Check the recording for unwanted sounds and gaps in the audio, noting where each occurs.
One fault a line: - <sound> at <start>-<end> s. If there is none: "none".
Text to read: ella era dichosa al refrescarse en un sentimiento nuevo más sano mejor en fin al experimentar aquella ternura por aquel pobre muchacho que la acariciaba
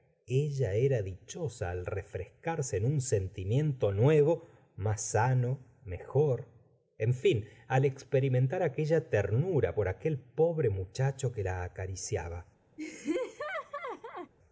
- laugh at 12.8-14.3 s